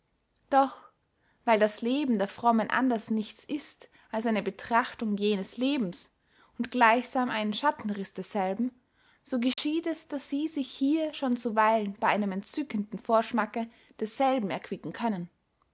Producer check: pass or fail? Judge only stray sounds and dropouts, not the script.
fail